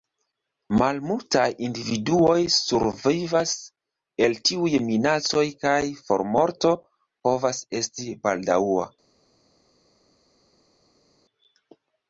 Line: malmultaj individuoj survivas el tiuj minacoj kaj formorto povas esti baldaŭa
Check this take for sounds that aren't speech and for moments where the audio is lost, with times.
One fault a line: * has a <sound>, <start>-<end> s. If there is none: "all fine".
all fine